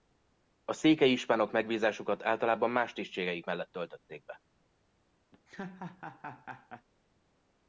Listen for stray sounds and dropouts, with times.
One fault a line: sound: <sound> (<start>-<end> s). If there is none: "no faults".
sound: laugh (5.3-6.9 s)